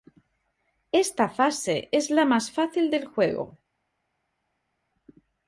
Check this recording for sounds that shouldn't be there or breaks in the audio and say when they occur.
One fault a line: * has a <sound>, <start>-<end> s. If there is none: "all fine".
all fine